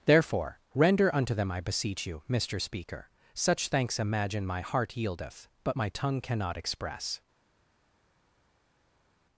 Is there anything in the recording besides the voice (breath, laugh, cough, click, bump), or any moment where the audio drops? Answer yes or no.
no